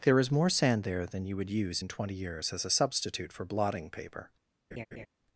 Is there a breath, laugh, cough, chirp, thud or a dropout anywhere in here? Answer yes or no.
yes